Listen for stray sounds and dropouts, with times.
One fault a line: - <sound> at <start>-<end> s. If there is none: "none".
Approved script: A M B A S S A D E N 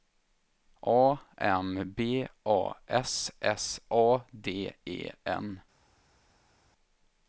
none